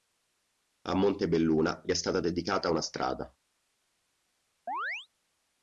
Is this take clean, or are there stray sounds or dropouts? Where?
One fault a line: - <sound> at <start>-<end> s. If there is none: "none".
- chirp at 4.7-5.1 s